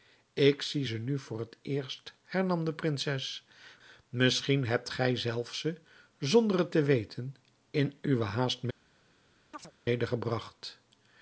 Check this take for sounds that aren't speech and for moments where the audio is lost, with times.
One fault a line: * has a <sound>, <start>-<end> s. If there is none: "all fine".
* has a chirp, 9.5-9.7 s